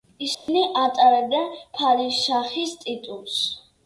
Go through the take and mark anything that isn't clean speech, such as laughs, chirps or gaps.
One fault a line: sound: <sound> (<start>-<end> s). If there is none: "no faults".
sound: dropout (0.3-0.5 s)